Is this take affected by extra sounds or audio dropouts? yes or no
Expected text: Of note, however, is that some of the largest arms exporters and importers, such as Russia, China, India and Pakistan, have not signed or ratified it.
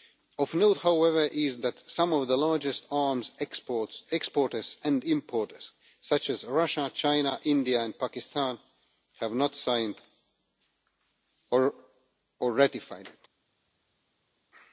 no